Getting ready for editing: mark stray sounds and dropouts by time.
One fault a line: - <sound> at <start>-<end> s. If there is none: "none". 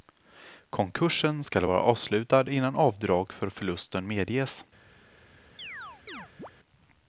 - chirp at 5.6-6.5 s